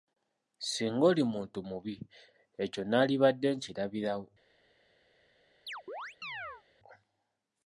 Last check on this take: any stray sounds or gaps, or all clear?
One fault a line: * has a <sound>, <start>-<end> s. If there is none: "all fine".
* has a chirp, 5.7-6.6 s